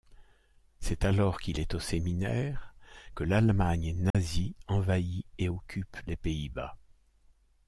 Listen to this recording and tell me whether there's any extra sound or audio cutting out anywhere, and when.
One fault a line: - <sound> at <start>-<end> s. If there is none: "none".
- dropout at 4.1-4.1 s